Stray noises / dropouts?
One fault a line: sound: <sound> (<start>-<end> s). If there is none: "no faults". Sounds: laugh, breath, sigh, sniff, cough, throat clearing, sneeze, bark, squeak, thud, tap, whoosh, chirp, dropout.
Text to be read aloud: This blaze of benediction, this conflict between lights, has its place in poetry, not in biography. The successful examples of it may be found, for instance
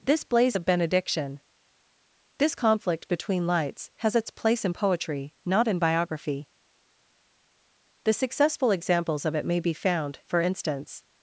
no faults